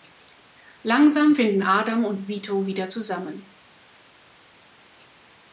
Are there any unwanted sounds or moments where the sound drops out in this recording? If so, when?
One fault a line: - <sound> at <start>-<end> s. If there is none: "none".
none